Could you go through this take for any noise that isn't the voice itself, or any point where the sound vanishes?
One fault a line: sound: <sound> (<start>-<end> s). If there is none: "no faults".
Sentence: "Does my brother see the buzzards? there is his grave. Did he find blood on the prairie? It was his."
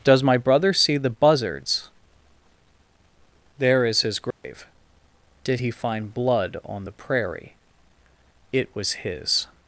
sound: dropout (4.3-4.4 s)